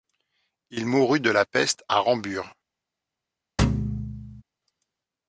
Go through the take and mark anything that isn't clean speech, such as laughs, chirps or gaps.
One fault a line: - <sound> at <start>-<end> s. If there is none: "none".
- thud at 3.6-4.4 s